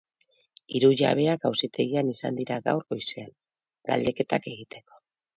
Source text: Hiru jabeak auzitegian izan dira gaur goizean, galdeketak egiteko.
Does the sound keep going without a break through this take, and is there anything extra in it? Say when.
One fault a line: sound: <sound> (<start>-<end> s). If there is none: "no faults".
no faults